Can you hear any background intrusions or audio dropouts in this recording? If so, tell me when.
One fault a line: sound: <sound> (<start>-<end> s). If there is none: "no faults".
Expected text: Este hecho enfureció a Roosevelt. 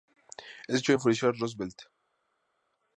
no faults